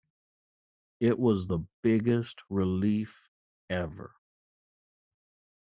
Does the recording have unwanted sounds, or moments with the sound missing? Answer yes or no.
no